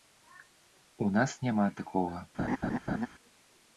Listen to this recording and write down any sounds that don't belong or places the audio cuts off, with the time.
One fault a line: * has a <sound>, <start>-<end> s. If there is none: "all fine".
* has a laugh, 2.4-3.1 s